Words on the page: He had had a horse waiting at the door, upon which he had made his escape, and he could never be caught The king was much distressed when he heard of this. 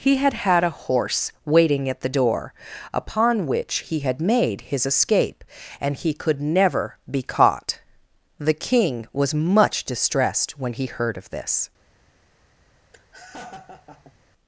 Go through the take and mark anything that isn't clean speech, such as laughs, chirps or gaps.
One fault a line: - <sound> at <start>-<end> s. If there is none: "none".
- laugh at 12.9-14.1 s